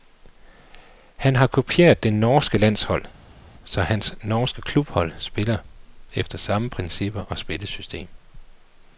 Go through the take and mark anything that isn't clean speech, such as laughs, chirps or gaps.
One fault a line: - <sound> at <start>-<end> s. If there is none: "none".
none